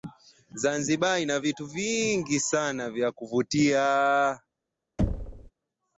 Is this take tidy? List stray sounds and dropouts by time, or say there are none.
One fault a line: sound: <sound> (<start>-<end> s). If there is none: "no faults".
sound: thud (5.0-5.5 s)